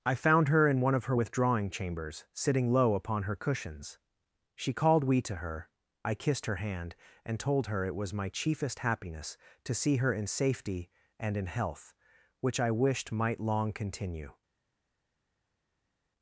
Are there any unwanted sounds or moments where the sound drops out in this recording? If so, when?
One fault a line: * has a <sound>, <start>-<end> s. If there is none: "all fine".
all fine